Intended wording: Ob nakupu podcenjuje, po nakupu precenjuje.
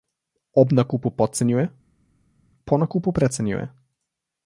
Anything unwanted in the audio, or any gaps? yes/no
no